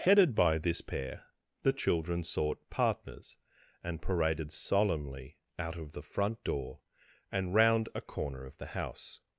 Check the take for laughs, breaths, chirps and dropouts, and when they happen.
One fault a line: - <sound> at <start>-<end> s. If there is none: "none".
none